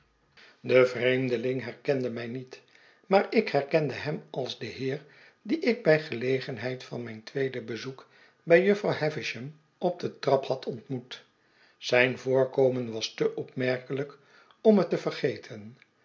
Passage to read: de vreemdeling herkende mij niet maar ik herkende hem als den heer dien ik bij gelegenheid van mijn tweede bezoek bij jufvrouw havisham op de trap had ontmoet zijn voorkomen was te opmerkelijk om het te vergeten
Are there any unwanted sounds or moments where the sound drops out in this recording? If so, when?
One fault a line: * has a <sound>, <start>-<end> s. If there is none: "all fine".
all fine